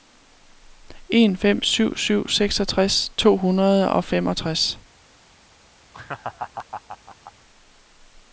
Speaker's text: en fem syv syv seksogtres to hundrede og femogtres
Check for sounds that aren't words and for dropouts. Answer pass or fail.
fail